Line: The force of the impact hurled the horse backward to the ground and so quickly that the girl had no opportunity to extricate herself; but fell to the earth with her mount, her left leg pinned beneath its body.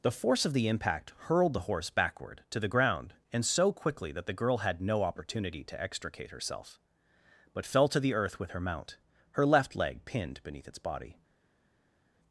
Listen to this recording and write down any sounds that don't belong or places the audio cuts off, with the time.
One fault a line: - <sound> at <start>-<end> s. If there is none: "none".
none